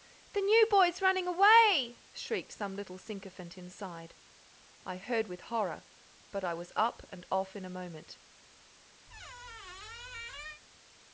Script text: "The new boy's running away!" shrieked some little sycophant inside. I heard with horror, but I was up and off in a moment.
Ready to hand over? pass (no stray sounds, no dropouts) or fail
fail